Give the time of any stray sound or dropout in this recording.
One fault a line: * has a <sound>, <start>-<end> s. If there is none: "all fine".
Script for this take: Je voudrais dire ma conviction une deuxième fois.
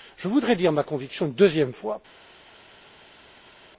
all fine